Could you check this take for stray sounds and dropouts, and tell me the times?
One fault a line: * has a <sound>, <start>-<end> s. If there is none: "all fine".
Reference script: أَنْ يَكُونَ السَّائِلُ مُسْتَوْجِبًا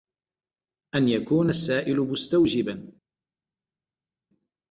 all fine